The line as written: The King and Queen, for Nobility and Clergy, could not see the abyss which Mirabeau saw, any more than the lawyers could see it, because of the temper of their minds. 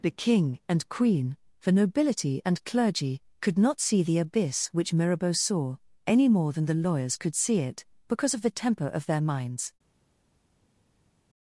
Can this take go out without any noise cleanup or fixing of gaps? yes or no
yes